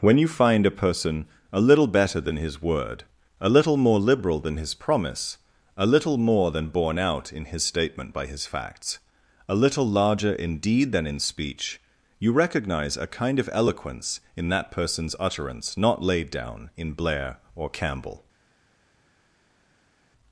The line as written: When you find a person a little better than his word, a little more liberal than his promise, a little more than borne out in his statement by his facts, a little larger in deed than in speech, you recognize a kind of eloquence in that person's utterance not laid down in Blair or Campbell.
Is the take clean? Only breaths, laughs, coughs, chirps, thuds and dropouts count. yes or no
yes